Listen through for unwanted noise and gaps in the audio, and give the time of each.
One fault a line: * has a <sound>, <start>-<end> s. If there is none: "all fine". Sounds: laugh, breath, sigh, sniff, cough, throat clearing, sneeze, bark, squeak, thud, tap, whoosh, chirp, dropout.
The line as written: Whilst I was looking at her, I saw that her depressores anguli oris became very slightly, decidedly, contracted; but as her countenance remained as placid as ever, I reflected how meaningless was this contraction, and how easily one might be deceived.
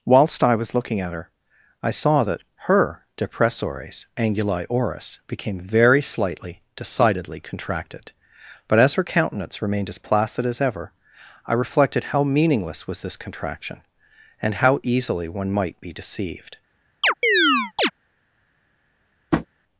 * has a chirp, 17.0-17.9 s
* has a tap, 19.3-19.5 s